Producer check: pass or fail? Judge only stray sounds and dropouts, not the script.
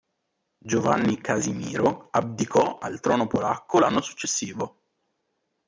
pass